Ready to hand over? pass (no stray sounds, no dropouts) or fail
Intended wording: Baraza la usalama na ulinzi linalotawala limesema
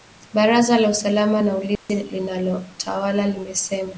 fail